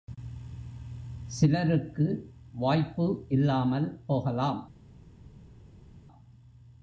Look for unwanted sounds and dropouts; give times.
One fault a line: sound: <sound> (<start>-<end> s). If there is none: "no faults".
no faults